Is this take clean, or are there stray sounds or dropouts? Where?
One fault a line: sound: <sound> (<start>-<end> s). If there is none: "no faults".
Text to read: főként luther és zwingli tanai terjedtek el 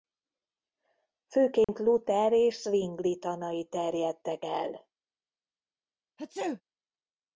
sound: dropout (1.6-1.7 s)
sound: sneeze (6.2-6.6 s)